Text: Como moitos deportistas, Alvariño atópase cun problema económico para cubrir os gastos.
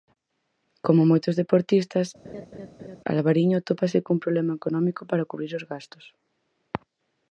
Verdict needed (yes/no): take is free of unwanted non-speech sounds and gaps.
no